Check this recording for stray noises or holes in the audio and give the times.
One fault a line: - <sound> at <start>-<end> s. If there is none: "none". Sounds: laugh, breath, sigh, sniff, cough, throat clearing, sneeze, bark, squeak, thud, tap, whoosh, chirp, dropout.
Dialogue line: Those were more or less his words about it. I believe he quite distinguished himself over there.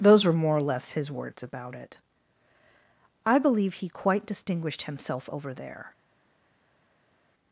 none